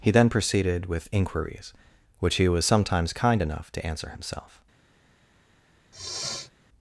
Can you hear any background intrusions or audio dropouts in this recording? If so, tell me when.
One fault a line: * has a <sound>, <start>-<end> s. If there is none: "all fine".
* has a sniff, 5.9-6.5 s